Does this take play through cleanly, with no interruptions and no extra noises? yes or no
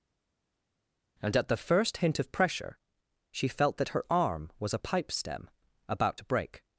yes